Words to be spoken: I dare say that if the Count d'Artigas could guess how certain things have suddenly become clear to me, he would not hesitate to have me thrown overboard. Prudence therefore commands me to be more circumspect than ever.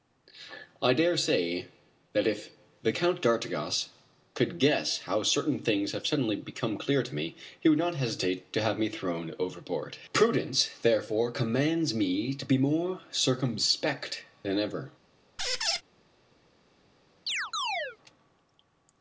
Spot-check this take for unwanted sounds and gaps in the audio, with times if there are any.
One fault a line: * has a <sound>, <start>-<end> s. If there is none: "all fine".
* has a squeak, 15.4-15.8 s
* has a chirp, 17.3-18.0 s